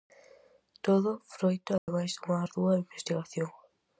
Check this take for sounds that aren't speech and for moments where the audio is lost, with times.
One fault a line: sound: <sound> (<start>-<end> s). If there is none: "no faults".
sound: dropout (1.8-1.9 s)